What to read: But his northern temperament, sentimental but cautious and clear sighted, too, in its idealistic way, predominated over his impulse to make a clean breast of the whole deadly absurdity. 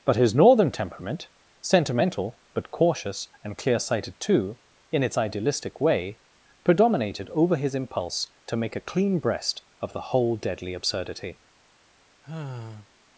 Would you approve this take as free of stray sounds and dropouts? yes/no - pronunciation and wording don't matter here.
no